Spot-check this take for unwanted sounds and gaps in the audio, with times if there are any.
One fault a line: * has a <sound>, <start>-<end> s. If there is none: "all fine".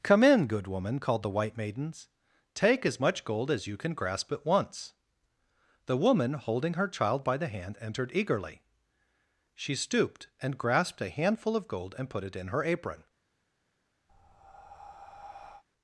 * has a breath, 14.1-15.6 s